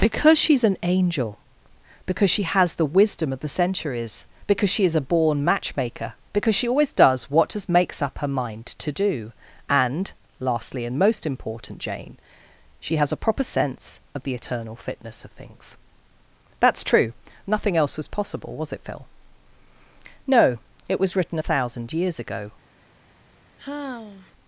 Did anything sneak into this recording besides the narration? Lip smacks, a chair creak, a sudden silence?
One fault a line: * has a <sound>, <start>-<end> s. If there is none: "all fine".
* has a sigh, 23.6-24.3 s